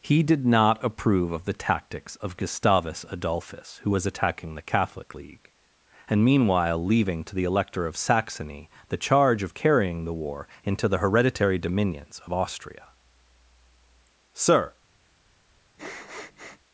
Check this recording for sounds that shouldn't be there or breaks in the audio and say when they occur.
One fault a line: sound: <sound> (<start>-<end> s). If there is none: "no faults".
sound: sniff (15.8-16.6 s)